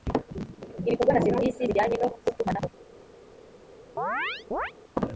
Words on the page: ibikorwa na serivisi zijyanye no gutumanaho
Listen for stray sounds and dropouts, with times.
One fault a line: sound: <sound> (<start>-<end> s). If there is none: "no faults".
sound: chirp (4.0-4.7 s)